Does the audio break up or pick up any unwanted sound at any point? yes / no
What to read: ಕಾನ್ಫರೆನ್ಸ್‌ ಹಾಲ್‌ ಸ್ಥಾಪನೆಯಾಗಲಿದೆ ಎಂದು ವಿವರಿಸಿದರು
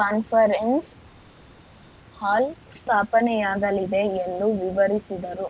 no